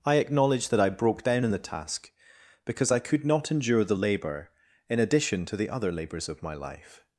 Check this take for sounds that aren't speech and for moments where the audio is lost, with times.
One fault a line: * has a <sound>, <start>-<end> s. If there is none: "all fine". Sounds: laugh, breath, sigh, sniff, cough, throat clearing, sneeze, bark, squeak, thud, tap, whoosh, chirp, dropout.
all fine